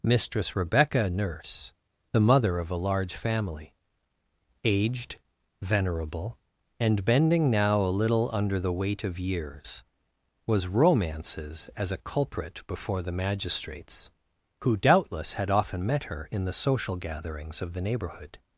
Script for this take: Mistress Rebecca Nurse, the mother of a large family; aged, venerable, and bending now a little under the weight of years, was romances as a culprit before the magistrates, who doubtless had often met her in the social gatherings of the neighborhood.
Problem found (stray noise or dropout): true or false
false